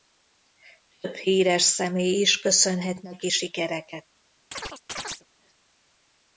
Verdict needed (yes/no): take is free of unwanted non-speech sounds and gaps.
no